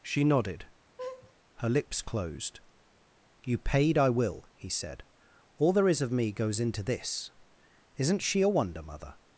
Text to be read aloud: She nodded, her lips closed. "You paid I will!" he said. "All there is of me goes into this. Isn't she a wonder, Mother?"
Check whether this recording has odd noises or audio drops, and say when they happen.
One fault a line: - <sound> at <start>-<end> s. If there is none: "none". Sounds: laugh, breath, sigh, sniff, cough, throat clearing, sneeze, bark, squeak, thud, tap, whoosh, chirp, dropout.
- laugh at 1.0-1.3 s